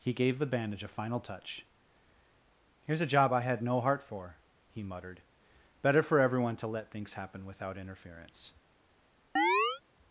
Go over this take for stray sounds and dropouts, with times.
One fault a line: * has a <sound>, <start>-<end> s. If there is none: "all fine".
* has a chirp, 9.4-9.8 s